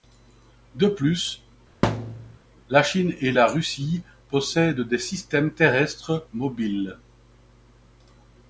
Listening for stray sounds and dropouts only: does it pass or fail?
fail